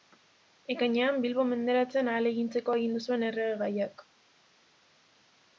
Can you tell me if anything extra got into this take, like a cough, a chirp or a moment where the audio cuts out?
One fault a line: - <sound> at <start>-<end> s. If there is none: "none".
none